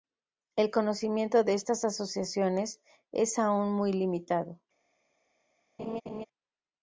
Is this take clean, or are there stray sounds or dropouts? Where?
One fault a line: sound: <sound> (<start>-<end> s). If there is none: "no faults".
sound: laugh (5.8-6.3 s)